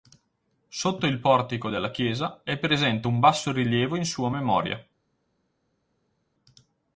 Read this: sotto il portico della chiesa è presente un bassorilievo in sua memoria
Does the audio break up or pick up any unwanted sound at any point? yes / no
no